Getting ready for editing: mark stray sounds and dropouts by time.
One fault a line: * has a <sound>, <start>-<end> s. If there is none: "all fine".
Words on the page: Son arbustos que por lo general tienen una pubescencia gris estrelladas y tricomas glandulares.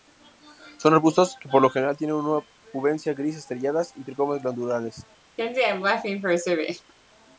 * has a laugh, 5.4-6.9 s